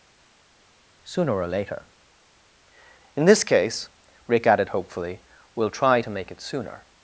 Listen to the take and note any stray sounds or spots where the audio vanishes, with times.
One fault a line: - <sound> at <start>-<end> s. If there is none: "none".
none